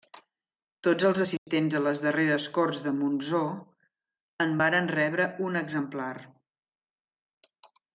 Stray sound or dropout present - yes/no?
yes